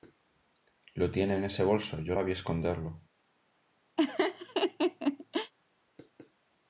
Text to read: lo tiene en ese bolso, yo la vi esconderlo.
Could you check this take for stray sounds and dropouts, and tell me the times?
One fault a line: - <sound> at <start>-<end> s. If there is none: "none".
- laugh at 4.0-5.5 s